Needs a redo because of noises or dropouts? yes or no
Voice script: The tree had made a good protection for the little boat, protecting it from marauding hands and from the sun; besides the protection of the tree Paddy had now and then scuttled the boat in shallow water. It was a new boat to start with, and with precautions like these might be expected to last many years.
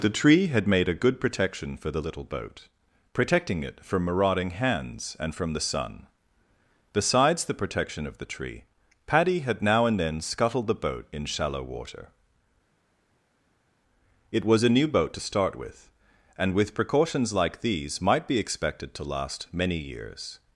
no